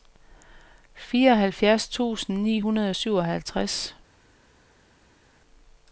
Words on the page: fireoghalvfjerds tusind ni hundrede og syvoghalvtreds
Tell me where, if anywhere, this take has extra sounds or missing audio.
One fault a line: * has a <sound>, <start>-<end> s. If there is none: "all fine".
all fine